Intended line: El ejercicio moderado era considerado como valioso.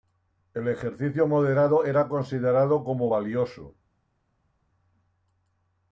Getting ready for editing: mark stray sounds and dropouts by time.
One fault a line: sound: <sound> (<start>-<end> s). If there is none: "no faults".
no faults